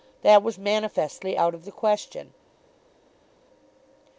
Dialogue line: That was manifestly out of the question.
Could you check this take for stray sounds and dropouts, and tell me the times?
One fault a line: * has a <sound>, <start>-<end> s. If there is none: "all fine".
all fine